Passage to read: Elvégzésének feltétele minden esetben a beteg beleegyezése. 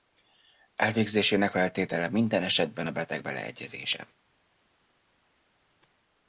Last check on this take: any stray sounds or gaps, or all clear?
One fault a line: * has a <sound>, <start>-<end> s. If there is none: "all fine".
all fine